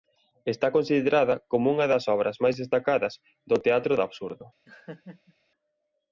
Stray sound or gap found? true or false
true